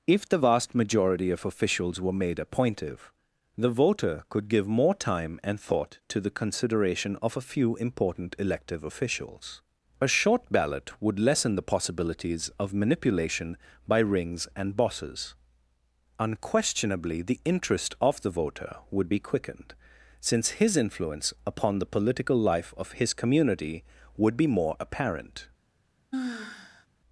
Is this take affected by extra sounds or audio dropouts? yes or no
yes